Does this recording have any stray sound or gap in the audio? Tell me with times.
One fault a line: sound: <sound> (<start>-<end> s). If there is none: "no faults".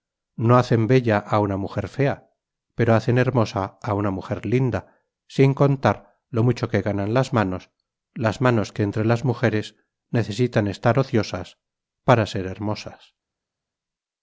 no faults